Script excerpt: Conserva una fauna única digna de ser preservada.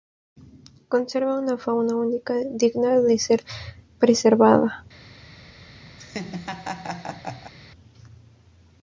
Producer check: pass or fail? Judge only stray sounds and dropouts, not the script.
fail